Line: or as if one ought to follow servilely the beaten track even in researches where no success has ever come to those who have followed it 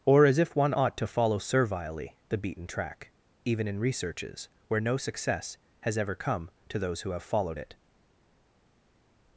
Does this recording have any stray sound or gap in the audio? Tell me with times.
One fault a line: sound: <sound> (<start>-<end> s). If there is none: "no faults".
no faults